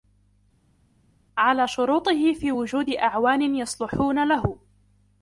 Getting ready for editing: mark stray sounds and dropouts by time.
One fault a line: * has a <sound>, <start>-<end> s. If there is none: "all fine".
all fine